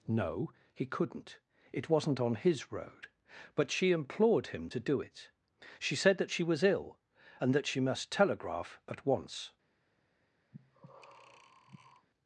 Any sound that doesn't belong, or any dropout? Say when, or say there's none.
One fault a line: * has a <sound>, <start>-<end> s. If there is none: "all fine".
* has a breath, 10.5-12.1 s